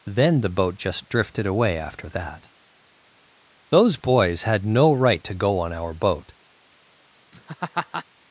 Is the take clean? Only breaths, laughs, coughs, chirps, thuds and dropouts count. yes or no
no